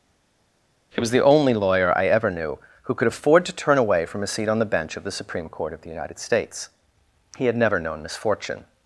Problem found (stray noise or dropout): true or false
false